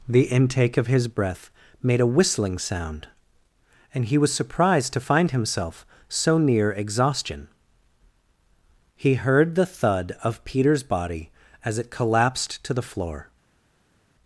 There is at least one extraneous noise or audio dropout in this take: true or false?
false